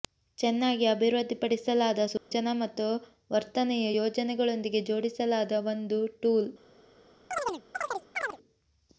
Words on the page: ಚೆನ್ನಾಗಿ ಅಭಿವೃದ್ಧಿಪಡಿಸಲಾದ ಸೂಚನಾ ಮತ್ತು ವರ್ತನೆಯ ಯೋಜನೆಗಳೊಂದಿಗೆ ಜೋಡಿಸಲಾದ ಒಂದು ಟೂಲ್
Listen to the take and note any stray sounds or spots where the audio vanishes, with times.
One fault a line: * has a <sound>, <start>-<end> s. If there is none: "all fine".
* has a dropout, 2.2-2.3 s
* has a chirp, 7.3-8.4 s